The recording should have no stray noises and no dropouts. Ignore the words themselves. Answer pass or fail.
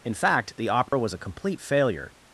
fail